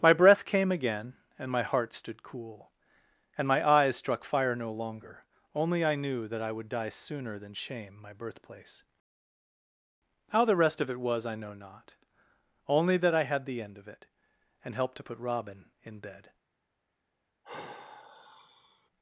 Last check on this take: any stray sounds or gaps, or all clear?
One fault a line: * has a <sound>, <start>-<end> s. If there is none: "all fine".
* has a sigh, 17.4-18.9 s